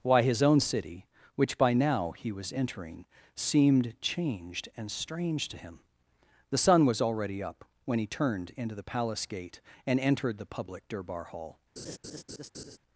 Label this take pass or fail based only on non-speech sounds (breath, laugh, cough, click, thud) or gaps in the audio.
fail